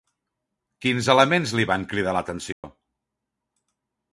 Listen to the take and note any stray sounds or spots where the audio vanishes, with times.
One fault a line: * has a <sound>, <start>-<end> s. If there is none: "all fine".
* has a dropout, 2.5-2.6 s